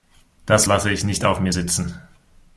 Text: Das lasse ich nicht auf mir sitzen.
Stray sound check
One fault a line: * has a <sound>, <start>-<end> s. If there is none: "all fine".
all fine